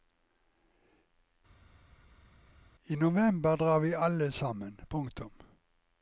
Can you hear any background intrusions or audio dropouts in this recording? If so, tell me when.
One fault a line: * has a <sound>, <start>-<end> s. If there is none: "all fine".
all fine